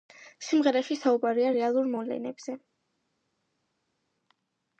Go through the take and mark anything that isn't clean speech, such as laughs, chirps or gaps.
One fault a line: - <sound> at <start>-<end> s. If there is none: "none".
none